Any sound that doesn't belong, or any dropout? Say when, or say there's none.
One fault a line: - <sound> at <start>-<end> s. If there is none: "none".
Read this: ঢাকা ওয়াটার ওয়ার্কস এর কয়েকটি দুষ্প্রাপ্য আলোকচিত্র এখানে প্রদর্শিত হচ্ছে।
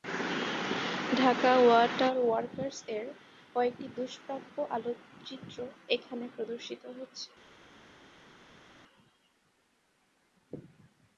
none